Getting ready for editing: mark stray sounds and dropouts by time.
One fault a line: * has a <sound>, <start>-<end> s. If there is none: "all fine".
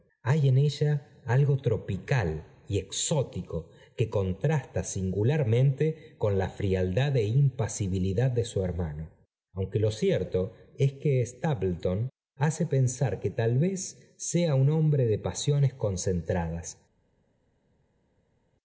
all fine